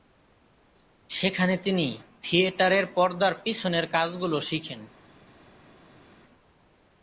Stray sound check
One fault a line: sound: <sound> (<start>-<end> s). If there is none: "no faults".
no faults